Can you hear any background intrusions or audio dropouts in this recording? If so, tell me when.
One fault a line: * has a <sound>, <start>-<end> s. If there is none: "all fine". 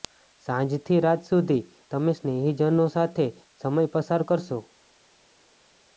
all fine